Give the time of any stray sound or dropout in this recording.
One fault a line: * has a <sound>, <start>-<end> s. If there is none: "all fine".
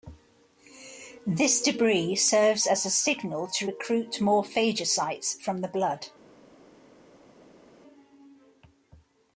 all fine